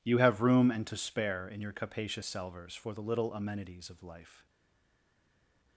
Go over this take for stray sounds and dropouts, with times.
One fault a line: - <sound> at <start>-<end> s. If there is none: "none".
none